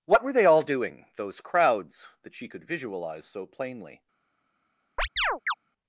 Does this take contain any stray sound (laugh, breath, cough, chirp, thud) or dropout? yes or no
yes